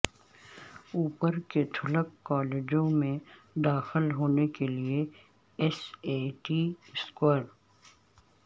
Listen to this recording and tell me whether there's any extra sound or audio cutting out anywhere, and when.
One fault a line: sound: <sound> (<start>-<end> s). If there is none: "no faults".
no faults